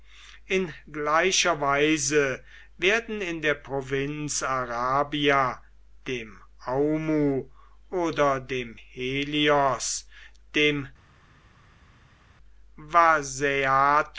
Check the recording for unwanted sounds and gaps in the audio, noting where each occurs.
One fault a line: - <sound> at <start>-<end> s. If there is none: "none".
none